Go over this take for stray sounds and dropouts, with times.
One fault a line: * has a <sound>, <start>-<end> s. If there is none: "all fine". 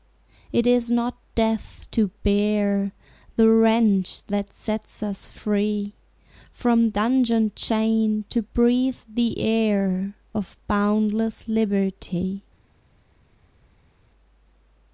all fine